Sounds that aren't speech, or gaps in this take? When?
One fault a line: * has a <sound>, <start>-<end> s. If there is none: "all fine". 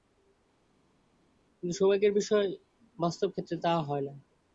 all fine